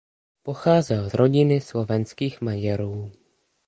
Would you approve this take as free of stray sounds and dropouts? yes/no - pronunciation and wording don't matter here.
yes